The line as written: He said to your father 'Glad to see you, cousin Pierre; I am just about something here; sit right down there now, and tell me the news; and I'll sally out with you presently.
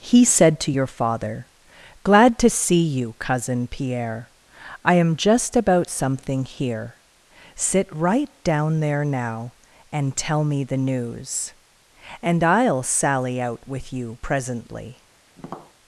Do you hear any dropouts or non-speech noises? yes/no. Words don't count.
yes